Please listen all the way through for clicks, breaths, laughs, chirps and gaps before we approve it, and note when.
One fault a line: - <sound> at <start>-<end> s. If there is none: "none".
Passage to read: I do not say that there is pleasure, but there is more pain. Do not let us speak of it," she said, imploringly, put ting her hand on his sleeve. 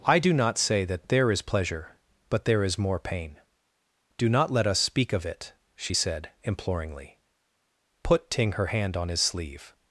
none